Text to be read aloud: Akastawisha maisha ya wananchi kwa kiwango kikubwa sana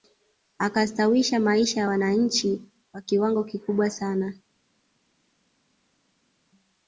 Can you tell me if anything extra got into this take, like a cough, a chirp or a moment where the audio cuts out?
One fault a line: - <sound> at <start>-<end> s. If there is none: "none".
none